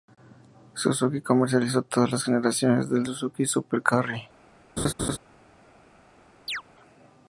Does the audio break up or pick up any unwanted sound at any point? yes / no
yes